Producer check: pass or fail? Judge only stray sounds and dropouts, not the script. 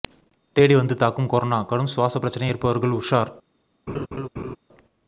fail